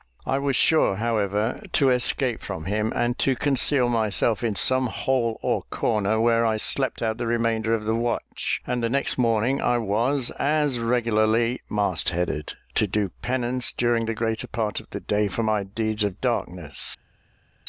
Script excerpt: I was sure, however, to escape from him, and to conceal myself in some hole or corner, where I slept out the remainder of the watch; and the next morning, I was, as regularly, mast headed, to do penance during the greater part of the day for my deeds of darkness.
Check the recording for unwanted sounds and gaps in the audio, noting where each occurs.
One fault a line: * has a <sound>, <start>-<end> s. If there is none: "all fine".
all fine